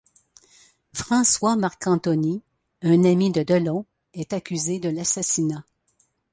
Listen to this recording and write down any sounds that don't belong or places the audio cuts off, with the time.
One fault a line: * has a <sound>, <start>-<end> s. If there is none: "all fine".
all fine